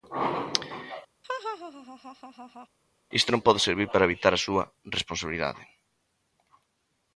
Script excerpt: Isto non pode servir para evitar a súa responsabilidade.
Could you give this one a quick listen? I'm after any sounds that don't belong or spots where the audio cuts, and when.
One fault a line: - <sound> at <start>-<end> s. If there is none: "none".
- laugh at 1.2-2.7 s